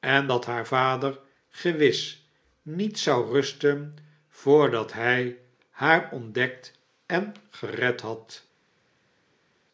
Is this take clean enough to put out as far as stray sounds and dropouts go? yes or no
yes